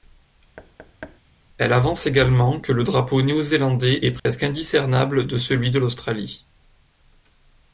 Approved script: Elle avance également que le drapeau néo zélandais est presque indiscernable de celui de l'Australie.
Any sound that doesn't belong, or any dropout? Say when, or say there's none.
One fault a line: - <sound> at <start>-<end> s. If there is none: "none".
- thud at 0.6-1.2 s
- dropout at 4.2-4.3 s